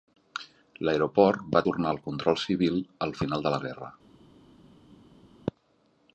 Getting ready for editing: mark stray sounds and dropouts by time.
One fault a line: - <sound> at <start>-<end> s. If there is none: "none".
none